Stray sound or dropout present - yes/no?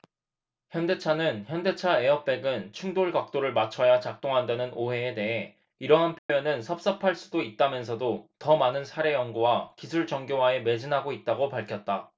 yes